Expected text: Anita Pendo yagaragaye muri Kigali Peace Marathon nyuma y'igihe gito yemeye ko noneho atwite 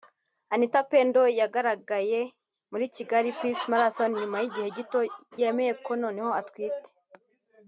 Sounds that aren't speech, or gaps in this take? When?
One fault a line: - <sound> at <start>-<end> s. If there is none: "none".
none